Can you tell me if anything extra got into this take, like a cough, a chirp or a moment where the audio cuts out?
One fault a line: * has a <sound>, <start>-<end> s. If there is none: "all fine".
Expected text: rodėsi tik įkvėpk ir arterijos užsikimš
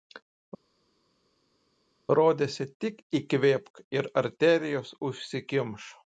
all fine